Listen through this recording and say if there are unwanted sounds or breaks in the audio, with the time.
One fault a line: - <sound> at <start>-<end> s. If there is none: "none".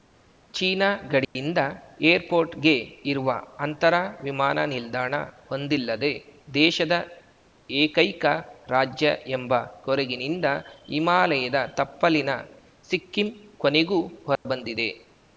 - dropout at 1.2-1.4 s
- dropout at 14.4-14.5 s